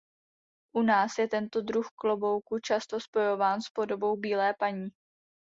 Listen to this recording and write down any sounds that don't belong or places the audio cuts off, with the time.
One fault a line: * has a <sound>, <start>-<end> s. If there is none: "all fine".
all fine